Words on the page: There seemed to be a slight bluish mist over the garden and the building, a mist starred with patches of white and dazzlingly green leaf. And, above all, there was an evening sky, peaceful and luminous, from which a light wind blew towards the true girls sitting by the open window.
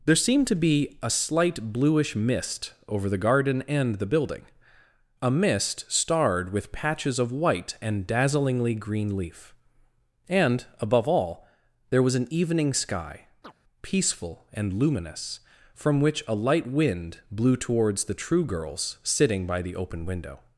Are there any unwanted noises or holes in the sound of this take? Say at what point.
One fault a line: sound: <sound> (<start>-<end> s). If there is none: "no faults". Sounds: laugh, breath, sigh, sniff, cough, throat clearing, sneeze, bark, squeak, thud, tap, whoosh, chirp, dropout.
sound: chirp (13.4-13.5 s)